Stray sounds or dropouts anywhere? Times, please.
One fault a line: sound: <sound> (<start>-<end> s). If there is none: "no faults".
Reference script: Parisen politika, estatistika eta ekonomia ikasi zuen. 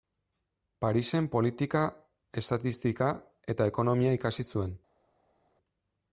no faults